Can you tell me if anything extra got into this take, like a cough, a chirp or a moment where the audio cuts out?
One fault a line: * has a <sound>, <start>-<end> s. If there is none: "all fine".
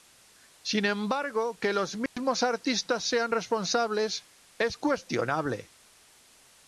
* has a dropout, 2.1-2.2 s